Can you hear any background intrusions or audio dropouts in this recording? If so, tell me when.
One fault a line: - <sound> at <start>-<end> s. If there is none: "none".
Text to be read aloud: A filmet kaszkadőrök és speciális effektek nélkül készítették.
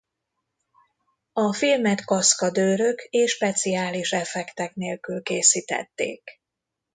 none